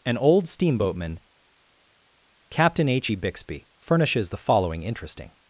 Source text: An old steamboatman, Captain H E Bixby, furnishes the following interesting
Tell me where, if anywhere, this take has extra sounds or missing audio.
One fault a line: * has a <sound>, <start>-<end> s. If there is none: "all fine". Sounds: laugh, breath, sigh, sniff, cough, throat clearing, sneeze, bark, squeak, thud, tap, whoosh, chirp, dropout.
all fine